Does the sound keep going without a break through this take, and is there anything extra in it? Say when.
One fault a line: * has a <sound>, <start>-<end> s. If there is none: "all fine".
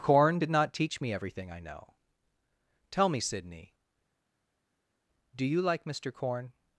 all fine